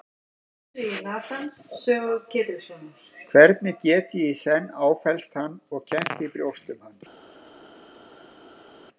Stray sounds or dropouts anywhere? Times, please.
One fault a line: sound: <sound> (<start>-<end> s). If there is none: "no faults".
no faults